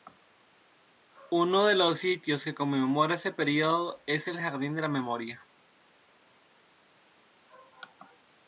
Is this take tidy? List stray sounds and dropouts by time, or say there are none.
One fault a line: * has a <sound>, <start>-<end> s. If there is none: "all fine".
all fine